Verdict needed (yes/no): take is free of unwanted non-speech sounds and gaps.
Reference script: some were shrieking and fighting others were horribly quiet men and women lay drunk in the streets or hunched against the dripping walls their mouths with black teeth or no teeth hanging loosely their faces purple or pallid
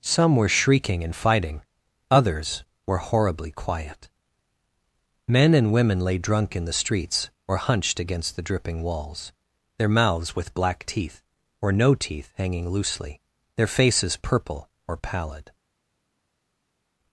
yes